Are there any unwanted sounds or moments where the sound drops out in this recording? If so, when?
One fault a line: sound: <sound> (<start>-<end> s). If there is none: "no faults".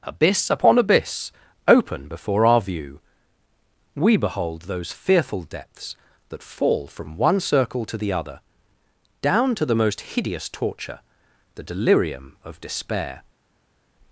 no faults